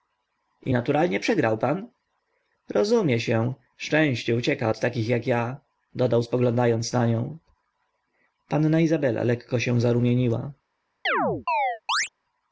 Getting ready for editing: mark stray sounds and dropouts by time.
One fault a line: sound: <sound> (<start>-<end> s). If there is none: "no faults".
sound: chirp (11.1-12.1 s)